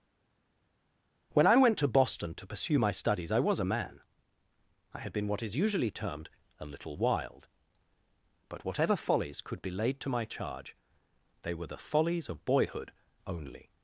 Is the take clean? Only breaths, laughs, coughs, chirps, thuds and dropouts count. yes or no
yes